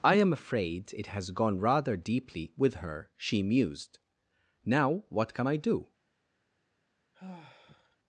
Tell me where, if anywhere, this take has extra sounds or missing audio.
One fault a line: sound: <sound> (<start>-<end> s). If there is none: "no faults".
sound: sigh (7.1-8.0 s)